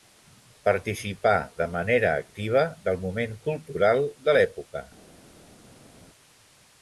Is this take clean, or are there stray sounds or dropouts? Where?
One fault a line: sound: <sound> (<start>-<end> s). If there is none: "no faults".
no faults